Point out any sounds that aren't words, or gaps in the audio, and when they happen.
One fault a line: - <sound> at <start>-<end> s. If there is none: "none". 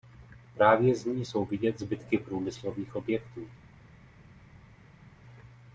none